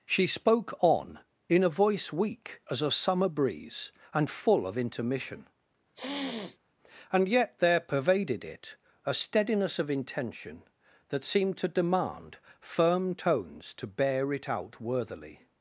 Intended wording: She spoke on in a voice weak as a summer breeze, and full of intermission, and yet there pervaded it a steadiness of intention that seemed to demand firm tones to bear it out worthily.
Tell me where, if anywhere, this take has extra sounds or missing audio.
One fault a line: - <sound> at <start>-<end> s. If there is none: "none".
- sniff at 5.9-6.6 s